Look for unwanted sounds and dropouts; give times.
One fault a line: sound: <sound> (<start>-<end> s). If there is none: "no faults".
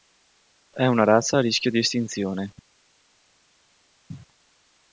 no faults